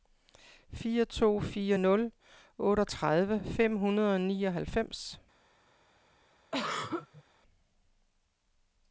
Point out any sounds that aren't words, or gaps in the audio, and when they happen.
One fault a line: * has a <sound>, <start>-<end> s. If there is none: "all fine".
* has a throat clearing, 6.5-7.2 s